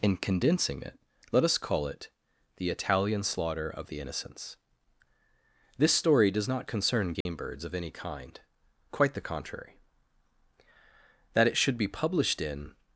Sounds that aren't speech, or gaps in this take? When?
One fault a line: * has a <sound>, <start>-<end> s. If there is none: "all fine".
* has a dropout, 7.2-7.3 s